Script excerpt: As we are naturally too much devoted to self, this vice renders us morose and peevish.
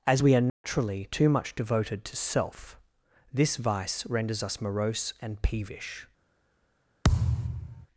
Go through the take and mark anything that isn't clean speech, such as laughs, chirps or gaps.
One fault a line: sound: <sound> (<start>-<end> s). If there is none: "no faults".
sound: dropout (0.5-0.6 s)
sound: thud (7.0-7.9 s)